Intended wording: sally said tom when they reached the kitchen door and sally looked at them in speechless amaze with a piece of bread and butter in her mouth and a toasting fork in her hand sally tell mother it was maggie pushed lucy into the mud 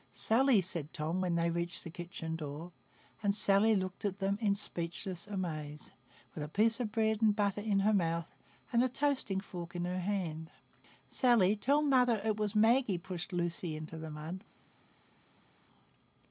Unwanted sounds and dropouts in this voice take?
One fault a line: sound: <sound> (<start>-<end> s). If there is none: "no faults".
no faults